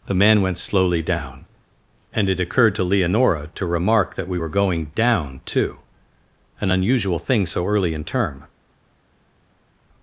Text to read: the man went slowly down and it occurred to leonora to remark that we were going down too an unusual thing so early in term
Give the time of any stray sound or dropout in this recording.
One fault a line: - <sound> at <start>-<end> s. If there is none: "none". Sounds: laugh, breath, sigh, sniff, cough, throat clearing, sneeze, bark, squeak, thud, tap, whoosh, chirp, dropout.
none